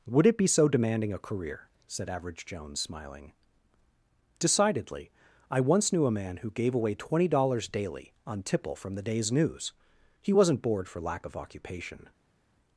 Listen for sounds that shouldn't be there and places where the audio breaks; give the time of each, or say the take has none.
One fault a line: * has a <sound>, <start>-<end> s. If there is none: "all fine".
all fine